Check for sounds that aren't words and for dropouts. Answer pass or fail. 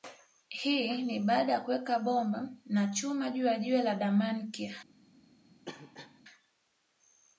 fail